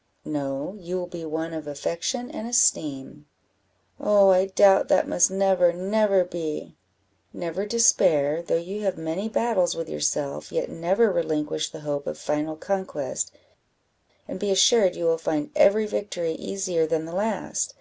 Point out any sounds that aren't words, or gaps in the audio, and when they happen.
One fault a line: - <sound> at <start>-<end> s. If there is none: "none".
none